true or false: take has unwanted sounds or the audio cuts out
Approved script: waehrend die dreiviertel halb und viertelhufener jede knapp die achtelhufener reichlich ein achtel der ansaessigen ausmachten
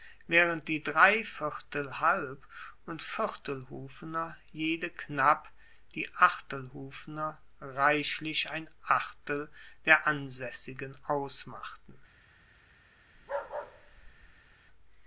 true